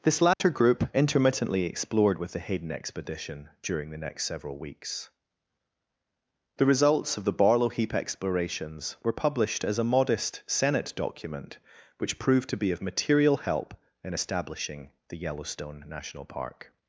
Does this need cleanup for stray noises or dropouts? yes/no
yes